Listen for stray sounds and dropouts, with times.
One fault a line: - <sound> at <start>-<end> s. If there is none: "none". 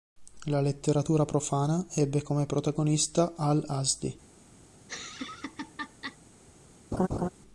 - laugh at 4.8-6.2 s
- laugh at 6.9-7.3 s